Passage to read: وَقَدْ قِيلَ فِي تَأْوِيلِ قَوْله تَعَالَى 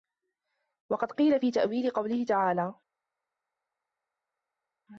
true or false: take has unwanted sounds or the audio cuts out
false